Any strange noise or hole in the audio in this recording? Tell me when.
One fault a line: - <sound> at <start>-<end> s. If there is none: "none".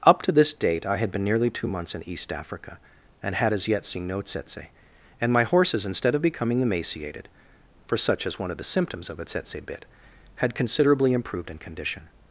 none